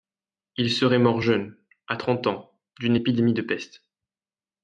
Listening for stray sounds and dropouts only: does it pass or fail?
pass